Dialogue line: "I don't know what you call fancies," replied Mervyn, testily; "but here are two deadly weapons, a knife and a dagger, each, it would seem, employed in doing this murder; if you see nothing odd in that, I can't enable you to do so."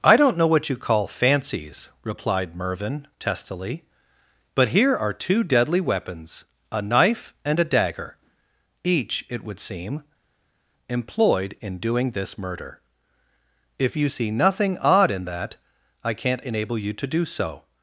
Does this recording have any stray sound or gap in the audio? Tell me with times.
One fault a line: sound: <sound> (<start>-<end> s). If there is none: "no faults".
no faults